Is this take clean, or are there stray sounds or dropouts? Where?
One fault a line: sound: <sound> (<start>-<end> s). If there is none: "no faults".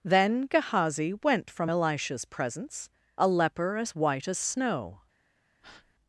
sound: breath (5.6-5.9 s)